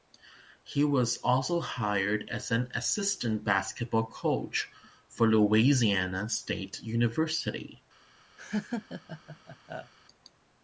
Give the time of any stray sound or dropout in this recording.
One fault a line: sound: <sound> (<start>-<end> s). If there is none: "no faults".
sound: laugh (8.4-9.9 s)